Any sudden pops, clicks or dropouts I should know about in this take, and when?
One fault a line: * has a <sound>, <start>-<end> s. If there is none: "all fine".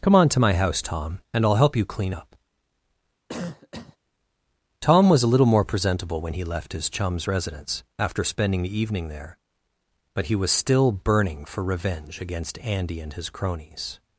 * has a cough, 3.3-4.0 s